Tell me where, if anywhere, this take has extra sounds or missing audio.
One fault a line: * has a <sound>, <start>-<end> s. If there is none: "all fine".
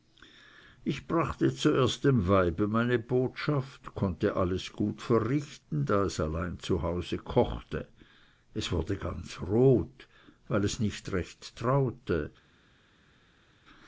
all fine